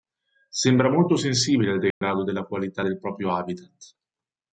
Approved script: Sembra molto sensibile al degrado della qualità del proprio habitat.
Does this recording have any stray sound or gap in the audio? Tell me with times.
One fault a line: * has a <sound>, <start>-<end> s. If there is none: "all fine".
* has a dropout, 1.9-2.0 s